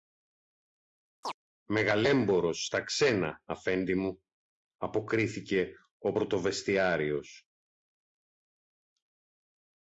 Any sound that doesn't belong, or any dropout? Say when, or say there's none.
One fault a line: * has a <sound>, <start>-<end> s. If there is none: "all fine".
* has a chirp, 1.2-1.3 s